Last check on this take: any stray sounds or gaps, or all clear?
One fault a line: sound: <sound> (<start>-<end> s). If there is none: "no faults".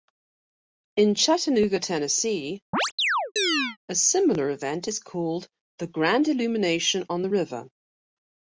sound: chirp (2.7-3.8 s)